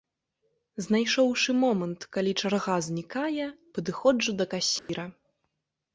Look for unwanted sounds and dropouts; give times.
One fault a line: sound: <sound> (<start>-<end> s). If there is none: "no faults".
sound: dropout (4.8-4.9 s)